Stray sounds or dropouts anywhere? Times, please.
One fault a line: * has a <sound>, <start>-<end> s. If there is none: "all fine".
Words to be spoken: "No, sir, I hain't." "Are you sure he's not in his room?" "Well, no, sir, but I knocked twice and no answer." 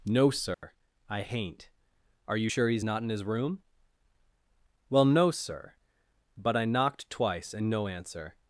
* has a dropout, 0.5-0.6 s